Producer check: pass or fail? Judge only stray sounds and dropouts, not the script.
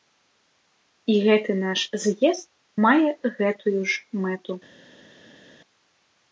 pass